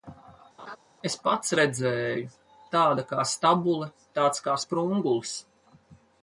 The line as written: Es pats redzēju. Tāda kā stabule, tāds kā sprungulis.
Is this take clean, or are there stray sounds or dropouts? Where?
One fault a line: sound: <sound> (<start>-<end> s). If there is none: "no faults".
sound: laugh (0.6-0.8 s)